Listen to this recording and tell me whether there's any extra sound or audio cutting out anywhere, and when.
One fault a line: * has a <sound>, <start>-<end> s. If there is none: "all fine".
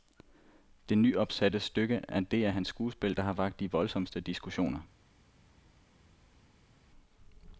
all fine